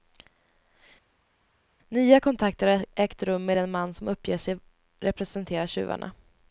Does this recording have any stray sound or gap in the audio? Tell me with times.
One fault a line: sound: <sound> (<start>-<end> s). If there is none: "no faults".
no faults